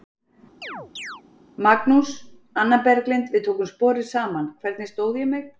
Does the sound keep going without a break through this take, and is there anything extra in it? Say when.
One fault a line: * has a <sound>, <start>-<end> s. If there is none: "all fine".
* has a chirp, 0.6-1.2 s